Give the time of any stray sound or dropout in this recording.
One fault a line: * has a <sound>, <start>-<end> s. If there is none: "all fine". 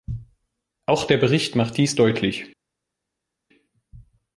all fine